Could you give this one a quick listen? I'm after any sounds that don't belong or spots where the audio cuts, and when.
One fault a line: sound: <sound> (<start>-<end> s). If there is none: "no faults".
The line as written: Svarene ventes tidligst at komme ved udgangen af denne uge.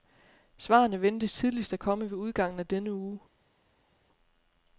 no faults